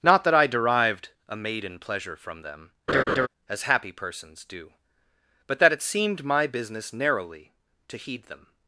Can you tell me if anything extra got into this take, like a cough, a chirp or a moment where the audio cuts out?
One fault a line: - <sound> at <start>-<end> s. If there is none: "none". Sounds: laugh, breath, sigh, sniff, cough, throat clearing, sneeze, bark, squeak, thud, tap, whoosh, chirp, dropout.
- laugh at 2.9-3.3 s